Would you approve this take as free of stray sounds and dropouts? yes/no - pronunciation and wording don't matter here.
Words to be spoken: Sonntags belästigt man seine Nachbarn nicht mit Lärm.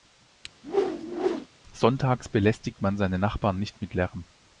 no